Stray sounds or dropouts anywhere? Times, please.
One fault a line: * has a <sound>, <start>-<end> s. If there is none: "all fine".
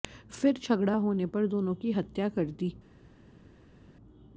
all fine